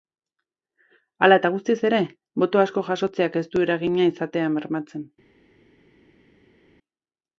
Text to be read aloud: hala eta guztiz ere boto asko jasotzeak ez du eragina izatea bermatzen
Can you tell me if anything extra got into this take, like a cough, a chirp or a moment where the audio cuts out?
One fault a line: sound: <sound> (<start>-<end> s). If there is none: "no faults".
no faults